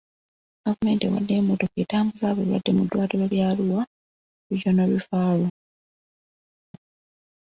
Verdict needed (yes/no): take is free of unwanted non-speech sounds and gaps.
yes